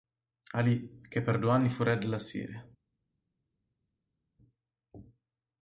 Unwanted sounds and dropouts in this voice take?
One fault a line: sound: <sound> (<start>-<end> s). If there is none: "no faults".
no faults